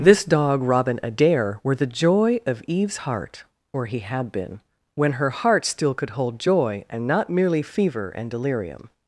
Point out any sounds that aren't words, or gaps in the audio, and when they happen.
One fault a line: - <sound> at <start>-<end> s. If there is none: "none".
none